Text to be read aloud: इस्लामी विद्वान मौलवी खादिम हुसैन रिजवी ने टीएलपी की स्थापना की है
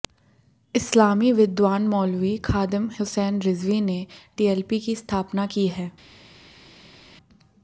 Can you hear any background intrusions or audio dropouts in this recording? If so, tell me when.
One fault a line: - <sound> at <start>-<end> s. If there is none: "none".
none